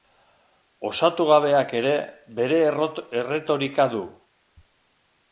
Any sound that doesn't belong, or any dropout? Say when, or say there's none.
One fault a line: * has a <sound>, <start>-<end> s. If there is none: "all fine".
all fine